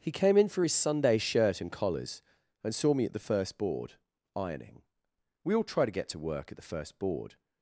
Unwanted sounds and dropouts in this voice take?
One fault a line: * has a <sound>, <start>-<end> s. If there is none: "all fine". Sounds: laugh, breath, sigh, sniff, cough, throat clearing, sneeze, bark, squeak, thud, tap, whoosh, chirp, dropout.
all fine